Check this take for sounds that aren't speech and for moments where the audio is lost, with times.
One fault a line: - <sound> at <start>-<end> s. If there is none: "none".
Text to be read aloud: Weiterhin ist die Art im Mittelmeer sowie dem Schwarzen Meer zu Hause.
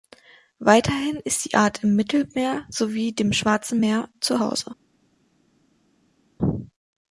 none